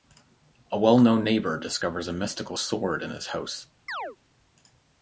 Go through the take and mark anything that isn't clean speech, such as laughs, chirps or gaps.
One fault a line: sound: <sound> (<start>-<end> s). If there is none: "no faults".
sound: chirp (3.9-4.2 s)